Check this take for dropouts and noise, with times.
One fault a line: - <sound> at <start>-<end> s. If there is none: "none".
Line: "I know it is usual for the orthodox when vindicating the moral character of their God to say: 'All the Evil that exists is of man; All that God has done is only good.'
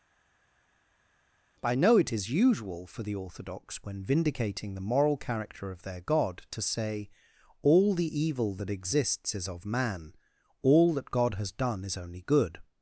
none